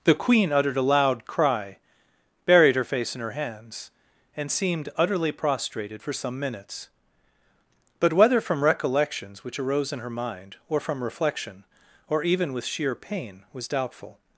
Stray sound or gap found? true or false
false